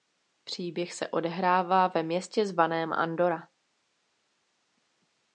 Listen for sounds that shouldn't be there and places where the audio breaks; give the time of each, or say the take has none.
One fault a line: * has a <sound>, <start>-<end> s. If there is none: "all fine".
all fine